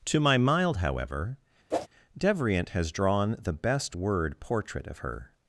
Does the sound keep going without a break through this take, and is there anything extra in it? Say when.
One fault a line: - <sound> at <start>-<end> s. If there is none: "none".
- whoosh at 1.7-1.9 s